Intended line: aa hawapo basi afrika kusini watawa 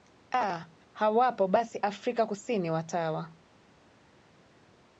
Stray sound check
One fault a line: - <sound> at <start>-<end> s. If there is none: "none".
none